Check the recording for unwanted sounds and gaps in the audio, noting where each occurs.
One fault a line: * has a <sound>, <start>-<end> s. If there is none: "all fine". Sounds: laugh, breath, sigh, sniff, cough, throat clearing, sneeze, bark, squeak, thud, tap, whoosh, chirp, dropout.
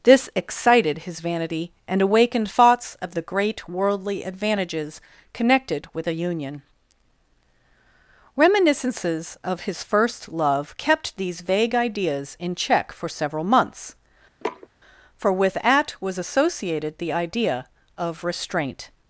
* has a sniff, 14.4-14.7 s